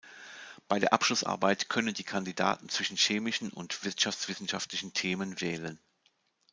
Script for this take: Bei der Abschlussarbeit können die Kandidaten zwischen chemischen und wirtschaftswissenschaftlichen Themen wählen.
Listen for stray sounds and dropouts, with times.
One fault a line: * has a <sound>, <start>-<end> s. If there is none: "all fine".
all fine